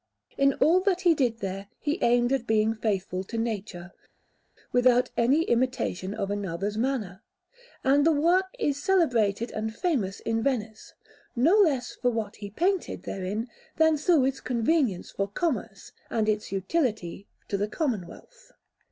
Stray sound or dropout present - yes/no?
no